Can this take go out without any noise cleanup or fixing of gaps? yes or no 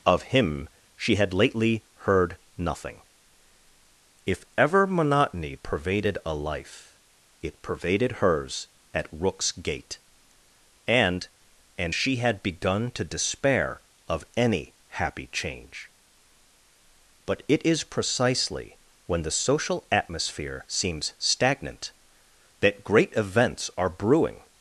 yes